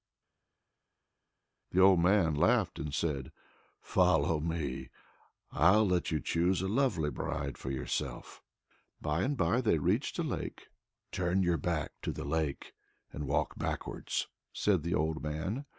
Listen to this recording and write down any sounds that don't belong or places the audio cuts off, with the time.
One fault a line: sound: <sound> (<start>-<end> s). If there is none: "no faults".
no faults